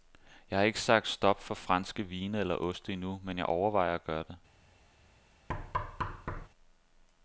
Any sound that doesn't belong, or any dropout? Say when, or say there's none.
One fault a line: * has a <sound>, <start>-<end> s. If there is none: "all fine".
* has a thud, 5.5-6.5 s